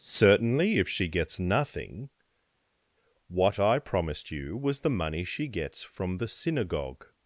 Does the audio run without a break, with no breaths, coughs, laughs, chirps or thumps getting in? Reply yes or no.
yes